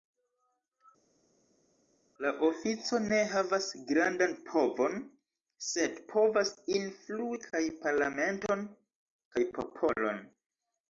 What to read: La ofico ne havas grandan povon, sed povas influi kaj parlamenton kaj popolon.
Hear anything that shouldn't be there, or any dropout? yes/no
no